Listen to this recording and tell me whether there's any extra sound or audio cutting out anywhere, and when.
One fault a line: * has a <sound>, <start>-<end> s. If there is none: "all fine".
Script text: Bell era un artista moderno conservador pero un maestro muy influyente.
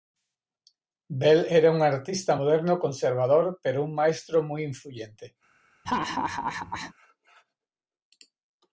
* has a laugh, 5.9-6.9 s